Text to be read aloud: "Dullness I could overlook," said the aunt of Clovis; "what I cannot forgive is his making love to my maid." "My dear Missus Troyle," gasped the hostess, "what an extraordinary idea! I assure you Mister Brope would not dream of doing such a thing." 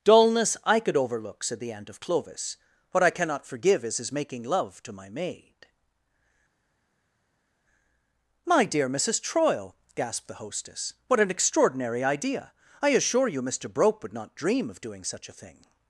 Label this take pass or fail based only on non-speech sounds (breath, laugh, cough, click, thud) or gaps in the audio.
pass